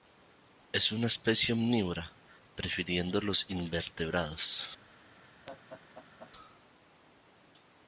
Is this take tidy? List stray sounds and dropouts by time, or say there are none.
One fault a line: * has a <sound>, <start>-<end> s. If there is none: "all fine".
* has a laugh, 5.5-6.3 s